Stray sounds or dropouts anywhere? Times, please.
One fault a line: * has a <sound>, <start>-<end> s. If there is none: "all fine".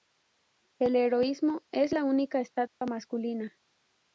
* has a dropout, 2.7-2.8 s